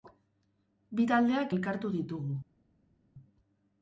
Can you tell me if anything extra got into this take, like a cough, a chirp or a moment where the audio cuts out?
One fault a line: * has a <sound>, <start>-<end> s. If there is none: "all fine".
all fine